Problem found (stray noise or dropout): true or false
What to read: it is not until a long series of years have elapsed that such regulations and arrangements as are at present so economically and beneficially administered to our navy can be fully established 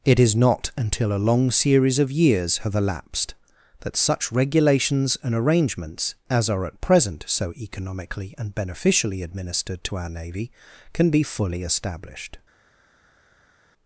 false